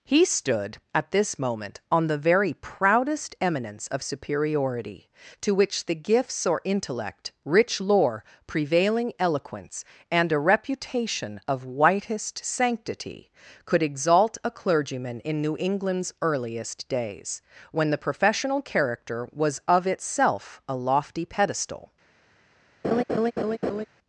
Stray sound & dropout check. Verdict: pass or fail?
fail